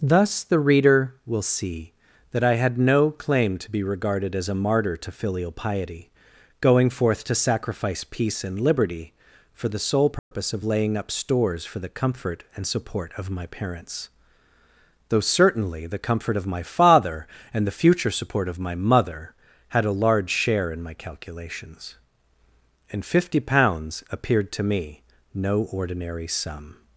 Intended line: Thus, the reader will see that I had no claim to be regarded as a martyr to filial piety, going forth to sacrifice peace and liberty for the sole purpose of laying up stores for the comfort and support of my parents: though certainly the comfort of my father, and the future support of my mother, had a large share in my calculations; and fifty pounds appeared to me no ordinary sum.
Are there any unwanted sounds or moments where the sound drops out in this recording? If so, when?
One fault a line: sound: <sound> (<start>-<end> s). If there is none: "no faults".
sound: dropout (10.2-10.3 s)